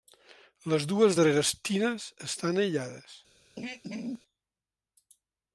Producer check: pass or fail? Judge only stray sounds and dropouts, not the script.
fail